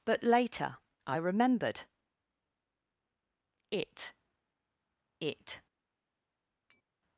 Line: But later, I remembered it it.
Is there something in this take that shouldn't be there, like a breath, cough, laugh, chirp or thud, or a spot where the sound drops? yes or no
yes